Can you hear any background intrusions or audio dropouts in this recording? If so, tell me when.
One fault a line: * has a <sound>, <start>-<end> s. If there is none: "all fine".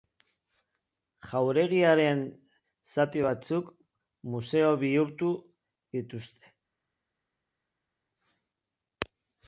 all fine